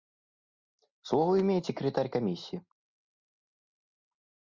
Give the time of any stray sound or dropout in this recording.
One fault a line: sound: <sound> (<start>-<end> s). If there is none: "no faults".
no faults